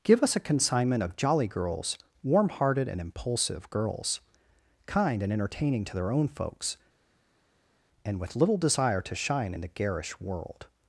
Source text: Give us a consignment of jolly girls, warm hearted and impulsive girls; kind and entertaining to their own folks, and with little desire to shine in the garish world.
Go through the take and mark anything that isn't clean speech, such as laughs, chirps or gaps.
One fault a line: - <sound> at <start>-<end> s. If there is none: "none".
none